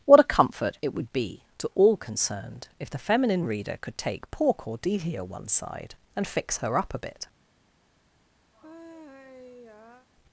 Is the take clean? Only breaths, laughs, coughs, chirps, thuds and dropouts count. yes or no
no